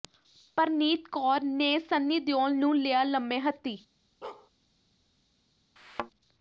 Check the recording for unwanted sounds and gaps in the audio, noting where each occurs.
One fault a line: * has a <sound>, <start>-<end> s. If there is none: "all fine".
* has a bark, 4.2-4.5 s
* has a thud, 5.8-6.1 s